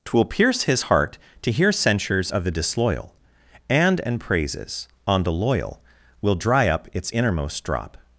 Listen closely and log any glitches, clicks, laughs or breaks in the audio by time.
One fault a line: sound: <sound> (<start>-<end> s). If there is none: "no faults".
no faults